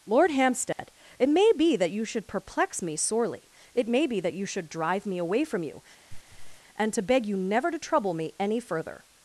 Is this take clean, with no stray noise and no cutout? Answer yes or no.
no